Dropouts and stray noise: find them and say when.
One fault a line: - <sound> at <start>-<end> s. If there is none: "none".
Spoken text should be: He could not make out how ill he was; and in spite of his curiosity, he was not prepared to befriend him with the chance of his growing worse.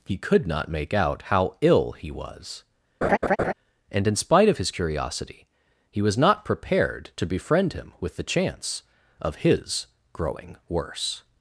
- laugh at 3.0-3.5 s